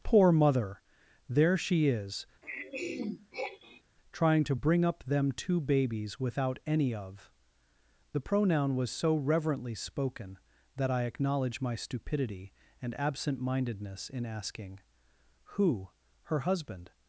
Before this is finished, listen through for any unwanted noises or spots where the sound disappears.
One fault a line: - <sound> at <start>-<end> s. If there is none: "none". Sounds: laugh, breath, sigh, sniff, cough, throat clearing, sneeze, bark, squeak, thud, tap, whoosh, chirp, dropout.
- throat clearing at 2.4-3.8 s